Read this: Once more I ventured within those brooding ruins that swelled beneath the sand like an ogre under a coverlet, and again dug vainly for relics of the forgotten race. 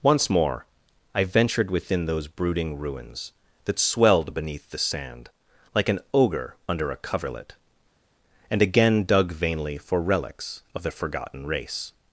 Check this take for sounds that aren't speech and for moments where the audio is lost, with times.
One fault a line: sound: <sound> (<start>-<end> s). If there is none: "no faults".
no faults